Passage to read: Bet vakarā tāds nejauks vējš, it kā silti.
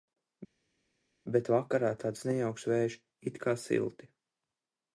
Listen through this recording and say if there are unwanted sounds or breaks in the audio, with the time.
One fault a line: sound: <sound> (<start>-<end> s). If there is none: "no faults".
no faults